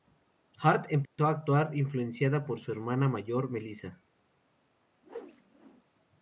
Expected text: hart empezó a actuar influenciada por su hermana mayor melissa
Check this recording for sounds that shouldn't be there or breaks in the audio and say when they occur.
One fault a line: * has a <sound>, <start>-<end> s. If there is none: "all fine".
* has a dropout, 1.0-1.2 s
* has a whoosh, 5.0-5.8 s